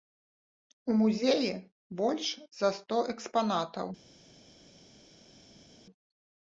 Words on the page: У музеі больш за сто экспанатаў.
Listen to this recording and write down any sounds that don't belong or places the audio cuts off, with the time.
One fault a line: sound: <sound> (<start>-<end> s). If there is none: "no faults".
no faults